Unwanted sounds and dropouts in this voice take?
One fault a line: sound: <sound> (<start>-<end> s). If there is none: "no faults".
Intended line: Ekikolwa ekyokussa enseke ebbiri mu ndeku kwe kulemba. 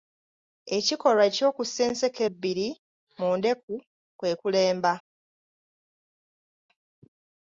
no faults